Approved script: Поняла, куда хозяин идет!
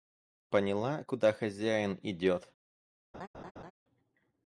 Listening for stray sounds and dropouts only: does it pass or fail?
fail